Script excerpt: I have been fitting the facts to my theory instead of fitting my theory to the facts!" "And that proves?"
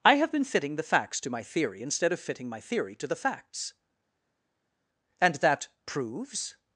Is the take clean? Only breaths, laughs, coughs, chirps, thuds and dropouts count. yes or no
yes